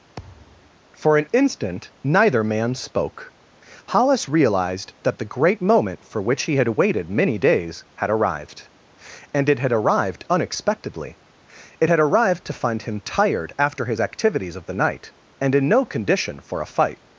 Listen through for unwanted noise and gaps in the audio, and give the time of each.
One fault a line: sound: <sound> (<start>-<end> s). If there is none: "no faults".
sound: thud (0.2-0.7 s)